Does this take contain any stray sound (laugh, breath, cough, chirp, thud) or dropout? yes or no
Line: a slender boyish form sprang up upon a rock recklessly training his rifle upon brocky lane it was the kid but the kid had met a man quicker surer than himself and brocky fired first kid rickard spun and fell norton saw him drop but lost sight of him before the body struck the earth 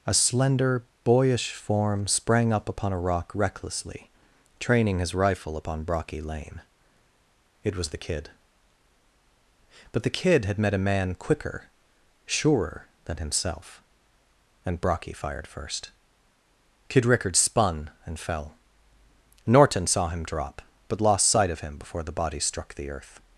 no